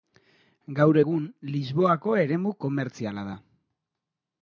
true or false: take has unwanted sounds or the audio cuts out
false